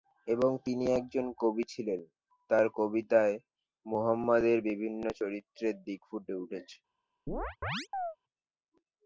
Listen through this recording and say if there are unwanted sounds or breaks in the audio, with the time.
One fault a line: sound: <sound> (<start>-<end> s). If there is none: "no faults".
sound: chirp (7.3-8.2 s)